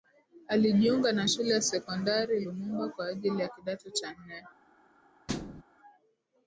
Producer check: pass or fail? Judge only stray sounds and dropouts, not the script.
fail